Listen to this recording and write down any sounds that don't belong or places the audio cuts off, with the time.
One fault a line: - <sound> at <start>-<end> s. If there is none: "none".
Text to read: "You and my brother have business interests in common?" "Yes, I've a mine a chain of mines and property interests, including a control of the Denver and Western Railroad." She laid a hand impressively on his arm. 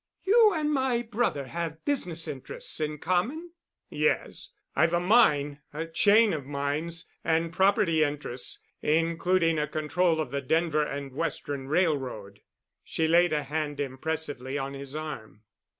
none